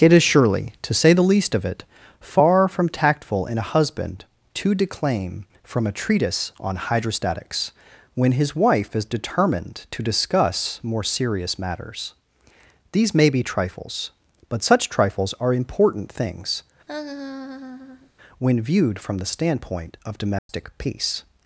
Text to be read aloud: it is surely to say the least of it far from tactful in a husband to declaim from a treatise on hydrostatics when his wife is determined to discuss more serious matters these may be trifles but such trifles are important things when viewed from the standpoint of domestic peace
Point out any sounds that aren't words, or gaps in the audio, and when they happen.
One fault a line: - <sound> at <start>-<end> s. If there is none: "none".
- laugh at 16.9-18.1 s
- dropout at 20.4-20.5 s